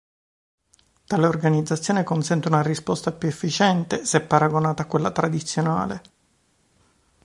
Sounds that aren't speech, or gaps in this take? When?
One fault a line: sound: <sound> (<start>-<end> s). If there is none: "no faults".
no faults